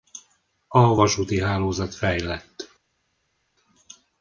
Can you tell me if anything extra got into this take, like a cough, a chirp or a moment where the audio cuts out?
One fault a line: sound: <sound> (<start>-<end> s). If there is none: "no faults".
no faults